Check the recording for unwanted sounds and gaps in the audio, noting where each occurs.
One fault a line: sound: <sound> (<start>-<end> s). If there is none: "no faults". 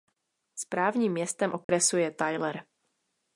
sound: dropout (1.6-1.7 s)